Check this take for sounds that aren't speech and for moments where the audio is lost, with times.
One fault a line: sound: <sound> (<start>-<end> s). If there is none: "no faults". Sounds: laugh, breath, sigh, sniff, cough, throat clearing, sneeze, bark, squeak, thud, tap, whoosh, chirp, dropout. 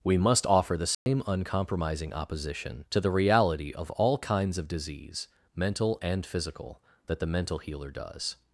sound: dropout (0.9-1.1 s)